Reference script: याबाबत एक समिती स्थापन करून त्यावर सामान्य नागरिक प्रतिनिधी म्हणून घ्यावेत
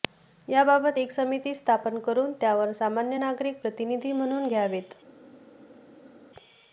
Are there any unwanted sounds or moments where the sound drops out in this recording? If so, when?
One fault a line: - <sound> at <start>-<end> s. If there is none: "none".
none